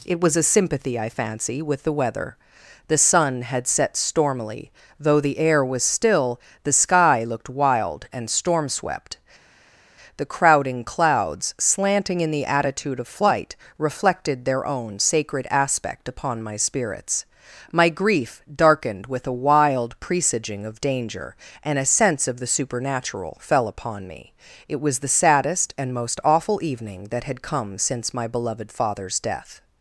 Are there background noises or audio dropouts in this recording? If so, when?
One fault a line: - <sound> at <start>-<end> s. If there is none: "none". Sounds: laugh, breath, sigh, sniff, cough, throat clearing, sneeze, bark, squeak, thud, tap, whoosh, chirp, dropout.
none